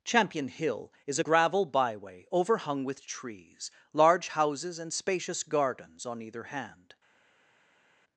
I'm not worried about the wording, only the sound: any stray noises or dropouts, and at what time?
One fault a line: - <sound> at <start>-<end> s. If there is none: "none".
none